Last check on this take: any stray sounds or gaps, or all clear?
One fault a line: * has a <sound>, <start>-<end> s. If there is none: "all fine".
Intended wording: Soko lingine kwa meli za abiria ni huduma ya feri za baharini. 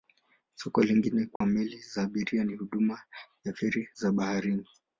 * has a dropout, 1.4-1.4 s